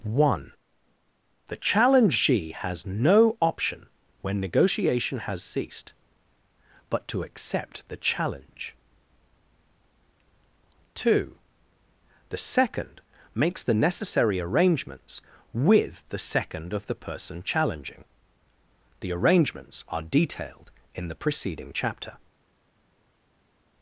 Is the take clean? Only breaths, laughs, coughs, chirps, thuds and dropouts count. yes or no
yes